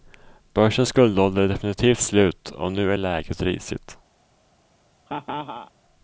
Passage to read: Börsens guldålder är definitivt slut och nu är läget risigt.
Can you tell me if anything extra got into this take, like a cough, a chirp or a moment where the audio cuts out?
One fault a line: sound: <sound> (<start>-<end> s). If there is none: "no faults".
sound: laugh (5.1-5.7 s)